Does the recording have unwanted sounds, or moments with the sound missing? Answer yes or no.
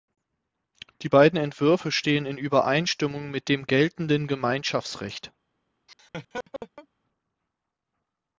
yes